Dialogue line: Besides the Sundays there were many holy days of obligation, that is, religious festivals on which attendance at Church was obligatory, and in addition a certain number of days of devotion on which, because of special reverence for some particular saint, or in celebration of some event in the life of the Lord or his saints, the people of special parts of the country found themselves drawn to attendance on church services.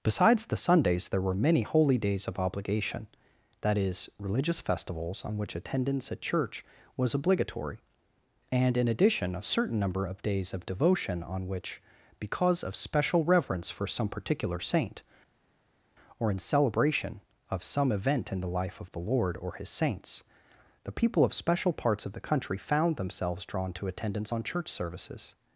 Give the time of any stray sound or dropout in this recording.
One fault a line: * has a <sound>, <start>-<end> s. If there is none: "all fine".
all fine